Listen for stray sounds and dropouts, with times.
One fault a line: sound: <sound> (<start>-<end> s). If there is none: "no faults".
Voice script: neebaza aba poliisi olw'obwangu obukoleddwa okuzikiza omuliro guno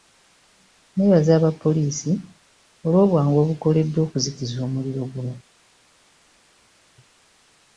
no faults